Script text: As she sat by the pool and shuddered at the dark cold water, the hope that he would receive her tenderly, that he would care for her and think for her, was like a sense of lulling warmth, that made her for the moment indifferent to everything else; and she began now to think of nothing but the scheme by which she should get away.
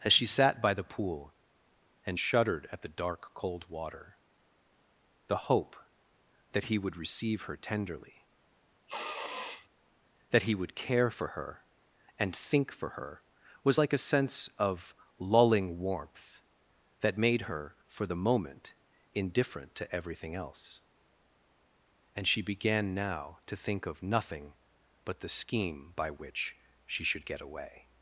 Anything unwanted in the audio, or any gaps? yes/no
yes